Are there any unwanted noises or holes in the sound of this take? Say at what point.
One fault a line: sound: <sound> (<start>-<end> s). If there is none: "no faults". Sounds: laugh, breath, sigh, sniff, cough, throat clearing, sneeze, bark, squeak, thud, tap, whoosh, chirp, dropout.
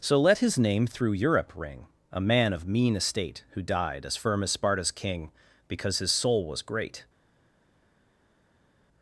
no faults